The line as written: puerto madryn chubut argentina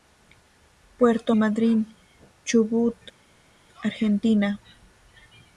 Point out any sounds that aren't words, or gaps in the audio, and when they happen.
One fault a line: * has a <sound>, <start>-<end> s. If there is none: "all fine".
all fine